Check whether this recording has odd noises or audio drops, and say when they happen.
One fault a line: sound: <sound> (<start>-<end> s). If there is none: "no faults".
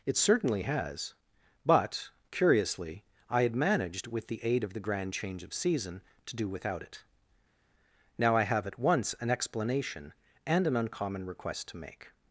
no faults